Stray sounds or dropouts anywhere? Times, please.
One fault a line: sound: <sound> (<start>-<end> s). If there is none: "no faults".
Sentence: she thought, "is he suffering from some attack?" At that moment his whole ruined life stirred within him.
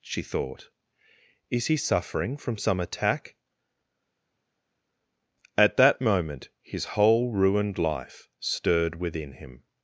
no faults